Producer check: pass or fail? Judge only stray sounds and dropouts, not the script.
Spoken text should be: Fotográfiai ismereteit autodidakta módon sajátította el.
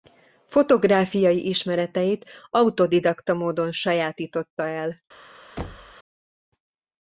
fail